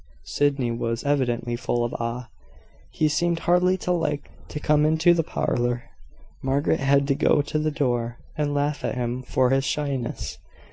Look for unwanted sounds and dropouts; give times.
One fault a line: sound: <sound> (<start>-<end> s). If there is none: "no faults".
no faults